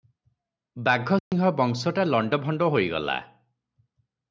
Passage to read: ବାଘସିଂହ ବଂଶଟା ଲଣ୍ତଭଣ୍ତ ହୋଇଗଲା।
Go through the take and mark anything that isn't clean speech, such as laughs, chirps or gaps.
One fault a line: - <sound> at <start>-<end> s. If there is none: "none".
- dropout at 1.2-1.3 s